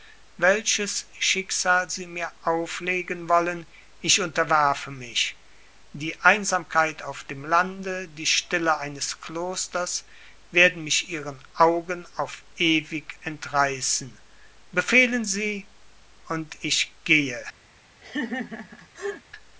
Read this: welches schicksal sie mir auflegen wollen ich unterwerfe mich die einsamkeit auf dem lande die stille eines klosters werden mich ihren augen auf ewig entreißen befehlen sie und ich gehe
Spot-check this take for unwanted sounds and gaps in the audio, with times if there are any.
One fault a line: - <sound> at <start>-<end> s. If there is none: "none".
- laugh at 18.0-19.2 s